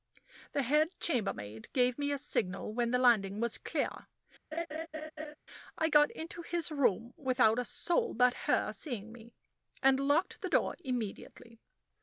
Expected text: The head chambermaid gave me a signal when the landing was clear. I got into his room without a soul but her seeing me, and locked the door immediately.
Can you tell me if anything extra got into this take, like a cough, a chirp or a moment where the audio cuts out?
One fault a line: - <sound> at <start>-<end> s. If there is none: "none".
- laugh at 4.5-5.4 s